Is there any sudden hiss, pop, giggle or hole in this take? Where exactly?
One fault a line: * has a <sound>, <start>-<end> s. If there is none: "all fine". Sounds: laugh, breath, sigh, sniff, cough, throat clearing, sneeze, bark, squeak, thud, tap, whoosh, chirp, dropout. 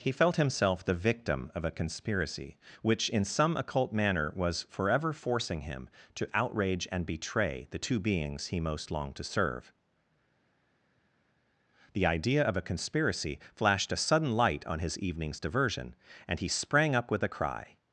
all fine